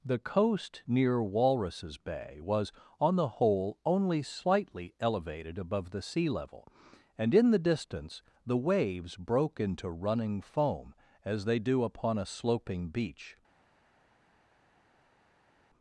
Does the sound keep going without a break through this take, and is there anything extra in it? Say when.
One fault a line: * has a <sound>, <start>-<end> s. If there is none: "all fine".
all fine